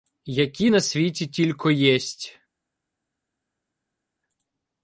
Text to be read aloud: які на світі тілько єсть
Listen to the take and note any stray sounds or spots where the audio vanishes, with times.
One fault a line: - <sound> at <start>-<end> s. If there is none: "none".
none